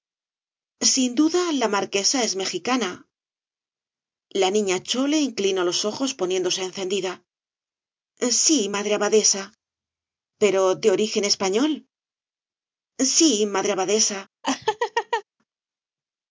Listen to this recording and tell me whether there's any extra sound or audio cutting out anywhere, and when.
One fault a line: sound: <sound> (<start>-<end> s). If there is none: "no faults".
sound: laugh (14.4-15.2 s)